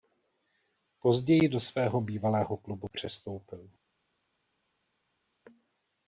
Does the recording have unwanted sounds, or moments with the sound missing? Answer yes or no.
no